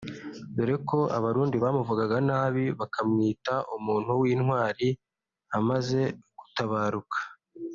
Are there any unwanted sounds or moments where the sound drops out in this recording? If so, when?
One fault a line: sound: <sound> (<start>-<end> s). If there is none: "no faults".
no faults